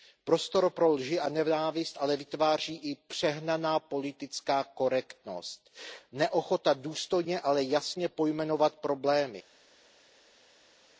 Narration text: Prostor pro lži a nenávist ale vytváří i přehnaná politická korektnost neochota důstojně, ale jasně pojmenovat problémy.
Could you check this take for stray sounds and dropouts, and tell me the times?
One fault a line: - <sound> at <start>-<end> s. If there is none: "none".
none